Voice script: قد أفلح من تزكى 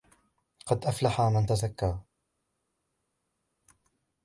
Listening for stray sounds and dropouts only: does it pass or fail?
pass